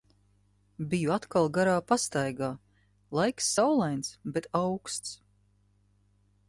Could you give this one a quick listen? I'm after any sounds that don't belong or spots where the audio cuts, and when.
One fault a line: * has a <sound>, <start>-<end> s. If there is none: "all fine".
all fine